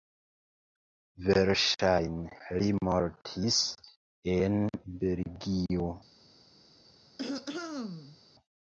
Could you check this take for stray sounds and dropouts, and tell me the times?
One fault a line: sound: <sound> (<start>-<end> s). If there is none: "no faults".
sound: throat clearing (7.2-8.2 s)